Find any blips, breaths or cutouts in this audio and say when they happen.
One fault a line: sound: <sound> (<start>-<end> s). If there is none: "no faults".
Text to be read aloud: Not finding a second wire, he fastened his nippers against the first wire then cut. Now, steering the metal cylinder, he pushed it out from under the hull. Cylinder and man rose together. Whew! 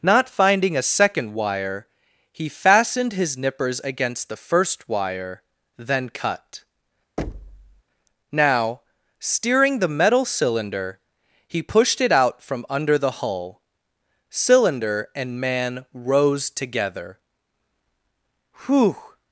sound: thud (7.2-7.8 s)